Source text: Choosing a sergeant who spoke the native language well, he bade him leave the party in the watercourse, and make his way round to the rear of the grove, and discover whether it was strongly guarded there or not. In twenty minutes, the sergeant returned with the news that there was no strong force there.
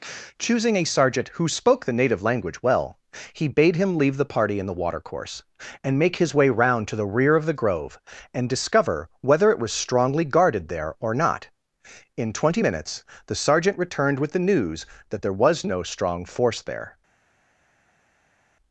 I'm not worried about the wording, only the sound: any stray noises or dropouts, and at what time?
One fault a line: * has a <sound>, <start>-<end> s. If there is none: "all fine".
all fine